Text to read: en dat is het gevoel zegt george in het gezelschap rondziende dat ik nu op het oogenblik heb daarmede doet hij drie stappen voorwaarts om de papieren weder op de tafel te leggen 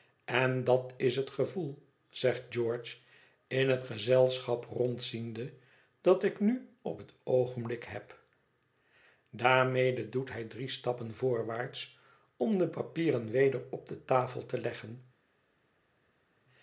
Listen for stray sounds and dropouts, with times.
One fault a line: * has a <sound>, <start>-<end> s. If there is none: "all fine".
all fine